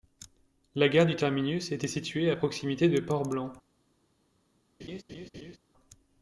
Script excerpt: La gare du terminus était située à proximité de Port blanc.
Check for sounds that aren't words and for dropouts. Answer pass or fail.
fail